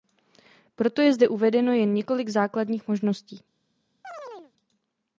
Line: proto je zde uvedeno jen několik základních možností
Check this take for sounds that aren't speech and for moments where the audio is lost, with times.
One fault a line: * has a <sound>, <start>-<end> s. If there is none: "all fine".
* has a chirp, 4.0-4.5 s